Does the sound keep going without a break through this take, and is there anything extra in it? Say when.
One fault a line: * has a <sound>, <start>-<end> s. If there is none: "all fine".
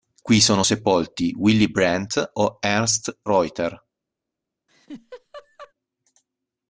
* has a laugh, 4.7-5.7 s